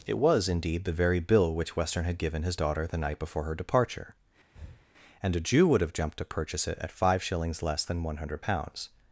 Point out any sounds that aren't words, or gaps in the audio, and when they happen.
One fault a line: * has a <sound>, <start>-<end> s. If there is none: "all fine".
* has a breath, 4.5-4.9 s